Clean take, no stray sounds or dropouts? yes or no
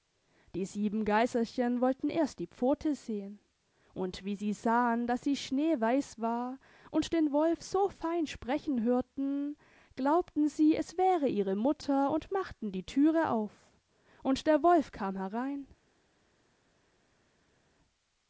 yes